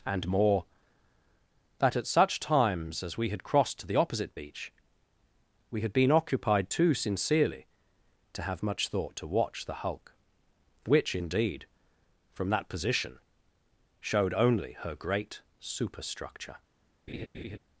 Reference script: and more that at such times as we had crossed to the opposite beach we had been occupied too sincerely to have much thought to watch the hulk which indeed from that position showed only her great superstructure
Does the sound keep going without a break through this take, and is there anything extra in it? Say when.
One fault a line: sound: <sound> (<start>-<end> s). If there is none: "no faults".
sound: laugh (17.1-17.6 s)